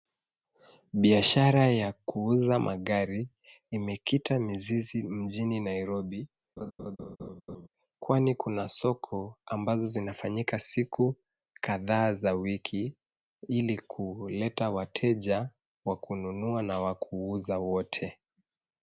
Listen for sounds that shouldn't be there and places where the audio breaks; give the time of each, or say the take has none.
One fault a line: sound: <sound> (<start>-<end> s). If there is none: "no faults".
sound: laugh (6.6-7.7 s)